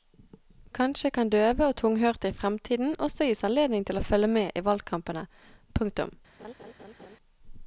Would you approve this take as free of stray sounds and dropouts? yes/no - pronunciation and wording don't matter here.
no